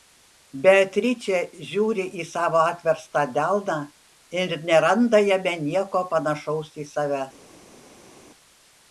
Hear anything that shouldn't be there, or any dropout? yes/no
no